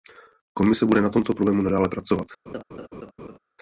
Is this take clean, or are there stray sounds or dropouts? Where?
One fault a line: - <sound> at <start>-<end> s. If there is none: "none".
- laugh at 2.5-3.4 s